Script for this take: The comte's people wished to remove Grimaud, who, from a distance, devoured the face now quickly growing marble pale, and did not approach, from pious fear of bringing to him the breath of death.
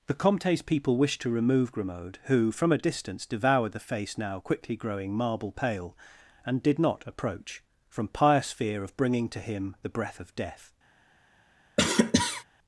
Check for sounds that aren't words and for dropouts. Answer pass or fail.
fail